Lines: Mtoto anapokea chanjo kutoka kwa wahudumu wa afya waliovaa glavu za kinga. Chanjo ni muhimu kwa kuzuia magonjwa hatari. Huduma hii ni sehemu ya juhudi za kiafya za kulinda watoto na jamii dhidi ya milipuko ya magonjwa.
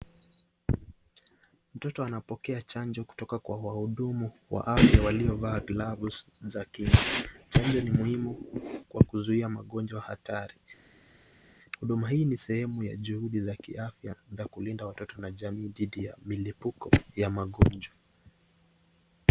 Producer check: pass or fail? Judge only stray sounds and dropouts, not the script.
pass